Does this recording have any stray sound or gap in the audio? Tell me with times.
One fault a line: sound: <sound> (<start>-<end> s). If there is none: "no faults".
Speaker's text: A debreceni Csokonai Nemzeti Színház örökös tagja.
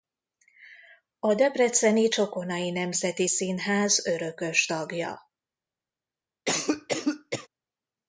sound: cough (6.5-7.5 s)